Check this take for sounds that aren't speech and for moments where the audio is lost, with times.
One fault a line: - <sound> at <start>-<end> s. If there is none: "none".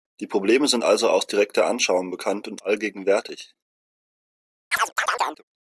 - chirp at 4.7-5.4 s